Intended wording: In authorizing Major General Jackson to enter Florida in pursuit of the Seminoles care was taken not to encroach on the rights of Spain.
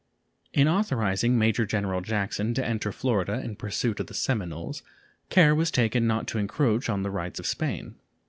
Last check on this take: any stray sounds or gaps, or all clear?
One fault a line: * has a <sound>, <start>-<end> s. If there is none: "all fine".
all fine